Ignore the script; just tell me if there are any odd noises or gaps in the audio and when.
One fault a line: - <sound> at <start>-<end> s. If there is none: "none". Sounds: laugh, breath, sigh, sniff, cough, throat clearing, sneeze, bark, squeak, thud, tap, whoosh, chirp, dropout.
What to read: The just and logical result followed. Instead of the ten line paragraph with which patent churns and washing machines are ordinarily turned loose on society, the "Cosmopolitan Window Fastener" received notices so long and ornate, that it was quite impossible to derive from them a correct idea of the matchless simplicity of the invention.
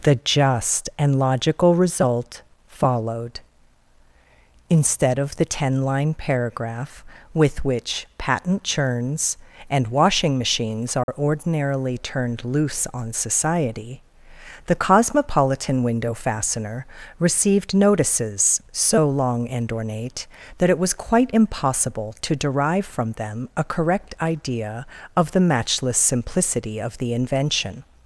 - dropout at 11.0-11.1 s